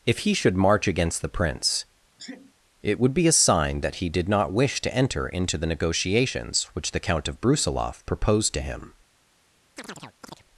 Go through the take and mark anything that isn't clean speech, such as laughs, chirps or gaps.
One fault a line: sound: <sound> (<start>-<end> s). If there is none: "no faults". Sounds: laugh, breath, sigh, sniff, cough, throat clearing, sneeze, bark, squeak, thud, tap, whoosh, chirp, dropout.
sound: sneeze (2.2-2.5 s)
sound: chirp (9.8-10.4 s)